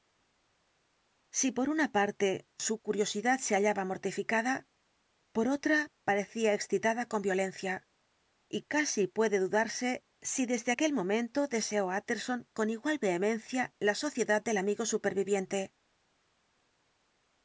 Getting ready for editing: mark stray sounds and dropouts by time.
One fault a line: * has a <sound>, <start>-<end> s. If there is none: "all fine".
all fine